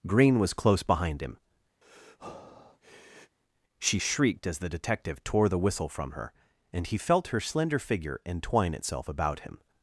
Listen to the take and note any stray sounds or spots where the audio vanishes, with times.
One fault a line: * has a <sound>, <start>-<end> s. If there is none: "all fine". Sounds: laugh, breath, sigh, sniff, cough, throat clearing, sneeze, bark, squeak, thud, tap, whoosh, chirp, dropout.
* has a breath, 1.8-3.4 s